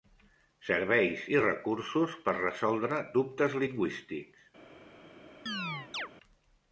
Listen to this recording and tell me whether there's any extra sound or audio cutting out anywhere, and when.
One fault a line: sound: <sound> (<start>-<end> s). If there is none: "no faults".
sound: chirp (5.5-6.1 s)